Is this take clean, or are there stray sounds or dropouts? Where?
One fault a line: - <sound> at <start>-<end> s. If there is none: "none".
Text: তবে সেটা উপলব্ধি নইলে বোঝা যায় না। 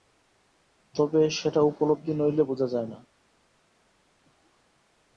none